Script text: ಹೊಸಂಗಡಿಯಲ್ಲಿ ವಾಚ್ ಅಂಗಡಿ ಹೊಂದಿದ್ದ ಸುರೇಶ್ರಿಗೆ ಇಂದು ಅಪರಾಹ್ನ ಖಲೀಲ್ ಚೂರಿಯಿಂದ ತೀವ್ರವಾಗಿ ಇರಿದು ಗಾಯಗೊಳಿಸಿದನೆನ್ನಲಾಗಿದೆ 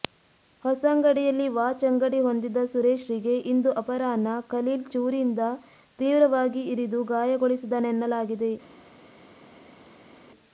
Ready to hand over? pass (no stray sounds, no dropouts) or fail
pass